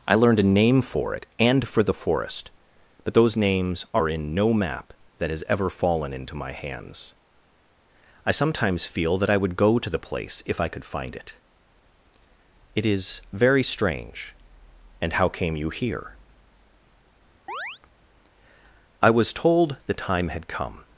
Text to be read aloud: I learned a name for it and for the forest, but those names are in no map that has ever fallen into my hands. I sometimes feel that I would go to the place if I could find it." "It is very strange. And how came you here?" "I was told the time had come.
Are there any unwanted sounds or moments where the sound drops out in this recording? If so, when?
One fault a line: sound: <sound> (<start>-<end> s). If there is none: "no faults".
sound: chirp (17.5-17.8 s)